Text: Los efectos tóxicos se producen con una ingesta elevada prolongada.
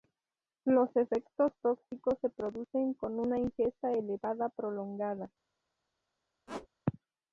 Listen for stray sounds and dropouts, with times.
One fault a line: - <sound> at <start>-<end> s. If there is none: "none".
- squeak at 6.5-6.7 s